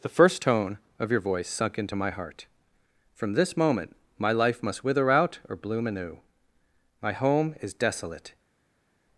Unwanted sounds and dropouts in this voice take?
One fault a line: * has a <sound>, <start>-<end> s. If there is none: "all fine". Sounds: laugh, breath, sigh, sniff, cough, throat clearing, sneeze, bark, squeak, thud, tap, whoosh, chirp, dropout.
all fine